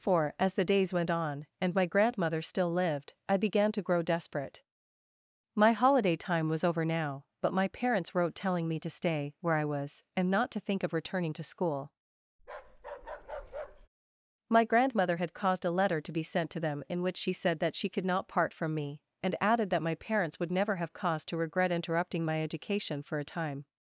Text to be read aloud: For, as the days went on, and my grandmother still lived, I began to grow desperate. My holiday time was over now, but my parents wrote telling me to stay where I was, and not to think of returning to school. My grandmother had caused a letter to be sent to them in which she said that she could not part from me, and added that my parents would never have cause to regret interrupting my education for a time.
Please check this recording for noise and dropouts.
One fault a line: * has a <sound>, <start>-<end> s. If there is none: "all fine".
* has a bark, 12.4-13.9 s